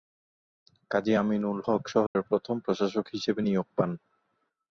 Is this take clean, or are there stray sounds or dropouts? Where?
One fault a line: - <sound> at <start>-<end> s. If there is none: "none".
- dropout at 2.1-2.2 s